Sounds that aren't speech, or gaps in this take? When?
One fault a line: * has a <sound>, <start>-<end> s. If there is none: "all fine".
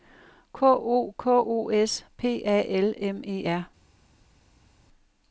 all fine